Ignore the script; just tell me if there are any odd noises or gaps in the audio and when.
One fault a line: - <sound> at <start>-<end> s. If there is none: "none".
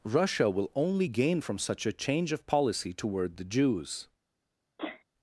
- sneeze at 4.8-5.0 s